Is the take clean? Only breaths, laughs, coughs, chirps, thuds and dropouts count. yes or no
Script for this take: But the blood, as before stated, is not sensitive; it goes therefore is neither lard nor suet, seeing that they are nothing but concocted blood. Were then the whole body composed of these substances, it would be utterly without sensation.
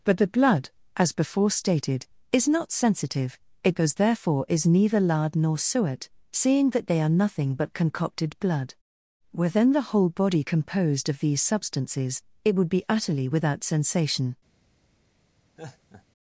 no